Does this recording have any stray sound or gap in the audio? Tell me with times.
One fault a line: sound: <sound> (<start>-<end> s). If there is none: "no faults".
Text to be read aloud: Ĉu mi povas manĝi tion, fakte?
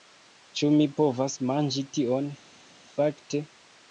no faults